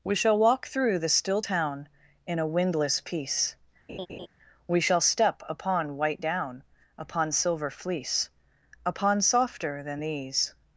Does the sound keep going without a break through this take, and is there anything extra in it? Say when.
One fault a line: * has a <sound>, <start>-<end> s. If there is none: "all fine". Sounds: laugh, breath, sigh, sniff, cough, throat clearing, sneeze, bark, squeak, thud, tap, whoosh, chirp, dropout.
* has a laugh, 3.9-4.3 s